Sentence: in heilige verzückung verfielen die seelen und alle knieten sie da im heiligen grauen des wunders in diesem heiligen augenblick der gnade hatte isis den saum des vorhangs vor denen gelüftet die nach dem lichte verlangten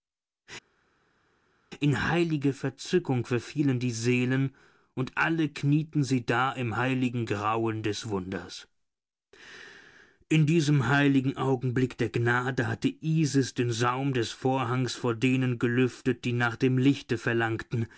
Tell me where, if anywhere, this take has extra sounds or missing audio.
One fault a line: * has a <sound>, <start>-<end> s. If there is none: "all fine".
all fine